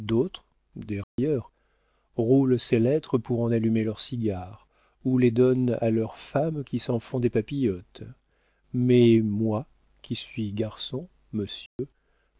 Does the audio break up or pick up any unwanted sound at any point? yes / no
yes